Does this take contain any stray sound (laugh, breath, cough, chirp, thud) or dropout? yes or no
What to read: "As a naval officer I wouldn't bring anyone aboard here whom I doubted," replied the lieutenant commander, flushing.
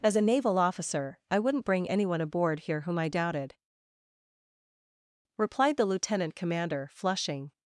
no